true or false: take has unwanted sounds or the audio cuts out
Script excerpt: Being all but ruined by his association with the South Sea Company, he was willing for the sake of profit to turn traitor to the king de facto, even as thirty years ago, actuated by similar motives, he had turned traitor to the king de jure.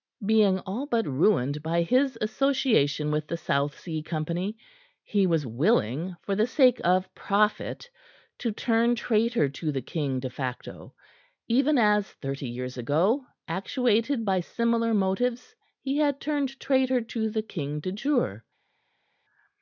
false